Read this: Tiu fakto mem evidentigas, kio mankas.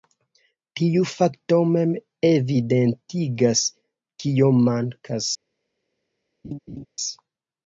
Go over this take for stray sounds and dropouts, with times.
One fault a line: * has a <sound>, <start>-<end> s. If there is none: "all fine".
* has a laugh, 6.4-6.9 s